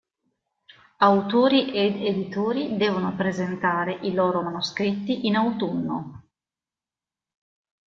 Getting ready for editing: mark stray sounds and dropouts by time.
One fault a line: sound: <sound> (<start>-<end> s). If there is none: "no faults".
no faults